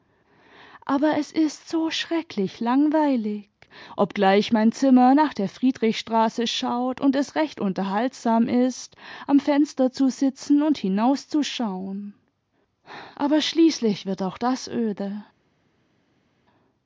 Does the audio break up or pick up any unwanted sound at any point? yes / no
no